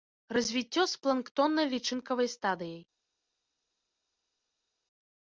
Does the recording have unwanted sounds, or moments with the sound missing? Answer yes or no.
no